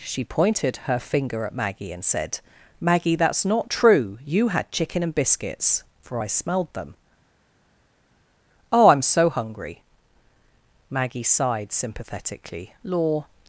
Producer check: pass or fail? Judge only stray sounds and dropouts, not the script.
pass